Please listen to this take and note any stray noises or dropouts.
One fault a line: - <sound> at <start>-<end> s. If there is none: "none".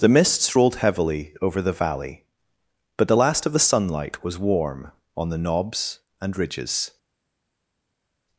none